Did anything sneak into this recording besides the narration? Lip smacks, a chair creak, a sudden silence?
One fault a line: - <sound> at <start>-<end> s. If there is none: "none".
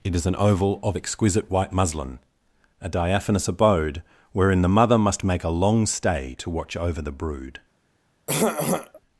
- throat clearing at 8.3-9.0 s